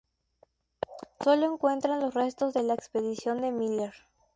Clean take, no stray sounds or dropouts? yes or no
yes